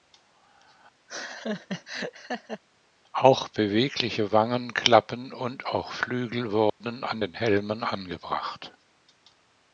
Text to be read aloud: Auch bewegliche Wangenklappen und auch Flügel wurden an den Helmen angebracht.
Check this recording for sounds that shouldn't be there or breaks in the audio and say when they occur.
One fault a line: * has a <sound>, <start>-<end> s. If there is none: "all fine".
* has a laugh, 1.1-2.6 s
* has a dropout, 6.7-6.8 s